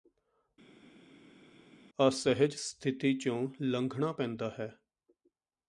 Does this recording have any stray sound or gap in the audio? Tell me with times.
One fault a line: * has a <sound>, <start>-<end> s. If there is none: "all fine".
all fine